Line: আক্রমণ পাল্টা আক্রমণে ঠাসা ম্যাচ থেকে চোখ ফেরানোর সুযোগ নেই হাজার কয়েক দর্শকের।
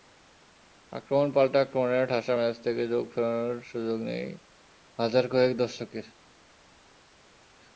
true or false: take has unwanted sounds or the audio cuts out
false